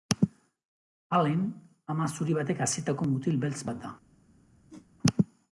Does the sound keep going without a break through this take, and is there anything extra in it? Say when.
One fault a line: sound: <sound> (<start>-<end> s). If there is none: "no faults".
sound: whoosh (4.7-4.9 s)